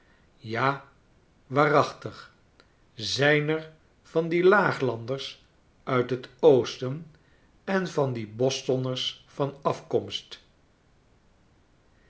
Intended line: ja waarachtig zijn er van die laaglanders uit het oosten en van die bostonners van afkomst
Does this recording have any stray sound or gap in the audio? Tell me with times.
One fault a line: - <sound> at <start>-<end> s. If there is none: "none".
none